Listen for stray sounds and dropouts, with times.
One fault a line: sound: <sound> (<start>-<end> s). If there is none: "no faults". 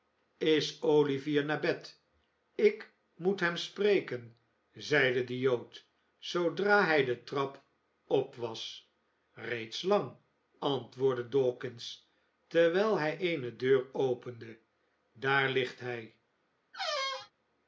sound: squeak (16.7-17.3 s)